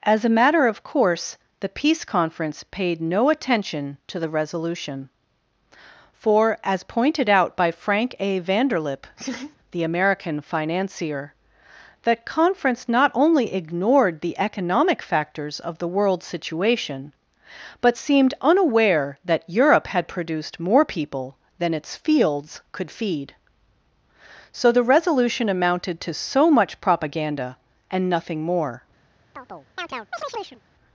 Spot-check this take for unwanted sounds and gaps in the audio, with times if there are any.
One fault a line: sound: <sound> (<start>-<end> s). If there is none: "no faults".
sound: laugh (9.2-9.6 s)
sound: chirp (29.3-30.6 s)